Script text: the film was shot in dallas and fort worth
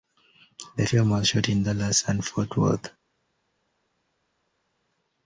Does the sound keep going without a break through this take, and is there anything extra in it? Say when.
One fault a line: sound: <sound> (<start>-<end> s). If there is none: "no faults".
no faults